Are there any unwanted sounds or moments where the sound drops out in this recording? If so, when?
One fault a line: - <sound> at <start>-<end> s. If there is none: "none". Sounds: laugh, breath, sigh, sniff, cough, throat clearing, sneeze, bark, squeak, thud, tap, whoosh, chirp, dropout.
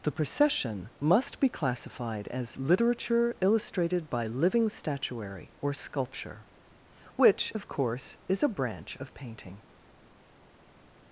none